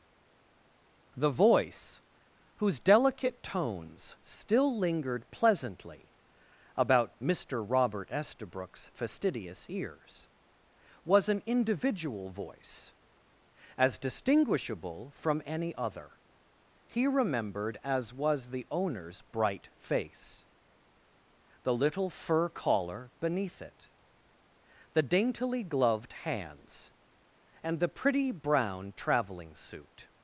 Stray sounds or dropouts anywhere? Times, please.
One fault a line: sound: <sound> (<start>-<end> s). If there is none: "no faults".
no faults